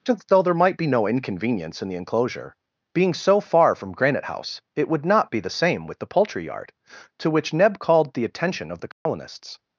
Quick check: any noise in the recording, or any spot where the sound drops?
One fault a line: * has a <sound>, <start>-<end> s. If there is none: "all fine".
* has a dropout, 8.9-9.1 s